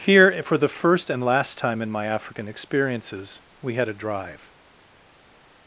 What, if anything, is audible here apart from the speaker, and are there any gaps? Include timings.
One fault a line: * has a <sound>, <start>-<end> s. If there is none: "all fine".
all fine